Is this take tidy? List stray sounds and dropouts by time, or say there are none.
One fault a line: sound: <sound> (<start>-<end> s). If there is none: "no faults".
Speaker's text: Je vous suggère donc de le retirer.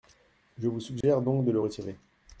sound: dropout (1.0-1.0 s)